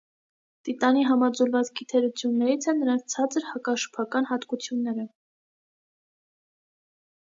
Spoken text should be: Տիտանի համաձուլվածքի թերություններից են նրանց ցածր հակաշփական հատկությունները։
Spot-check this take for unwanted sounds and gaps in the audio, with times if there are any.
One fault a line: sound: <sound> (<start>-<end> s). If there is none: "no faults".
no faults